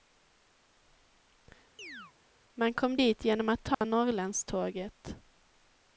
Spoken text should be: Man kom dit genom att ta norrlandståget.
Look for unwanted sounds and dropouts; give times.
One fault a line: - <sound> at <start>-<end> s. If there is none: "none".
- chirp at 1.8-2.1 s
- dropout at 3.7-3.8 s